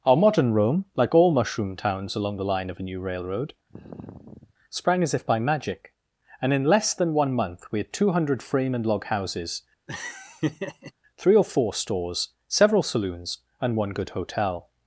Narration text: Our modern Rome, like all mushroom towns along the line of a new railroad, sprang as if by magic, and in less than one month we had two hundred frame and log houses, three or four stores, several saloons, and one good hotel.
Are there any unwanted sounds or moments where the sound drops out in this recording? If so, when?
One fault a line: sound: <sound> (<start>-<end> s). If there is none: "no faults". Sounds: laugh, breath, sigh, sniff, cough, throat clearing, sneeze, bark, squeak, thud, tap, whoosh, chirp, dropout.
sound: sigh (3.7-4.5 s)
sound: laugh (9.9-10.9 s)